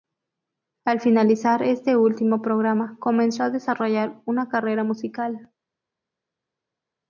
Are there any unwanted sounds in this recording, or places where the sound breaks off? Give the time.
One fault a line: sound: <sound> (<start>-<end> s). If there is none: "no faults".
no faults